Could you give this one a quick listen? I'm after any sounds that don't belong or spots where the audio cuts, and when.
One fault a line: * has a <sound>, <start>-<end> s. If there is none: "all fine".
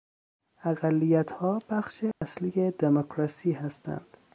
* has a dropout, 2.1-2.2 s